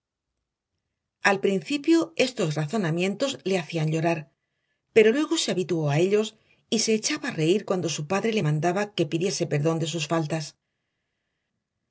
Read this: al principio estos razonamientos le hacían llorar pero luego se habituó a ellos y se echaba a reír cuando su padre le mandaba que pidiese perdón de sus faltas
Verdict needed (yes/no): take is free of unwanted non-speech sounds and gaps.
yes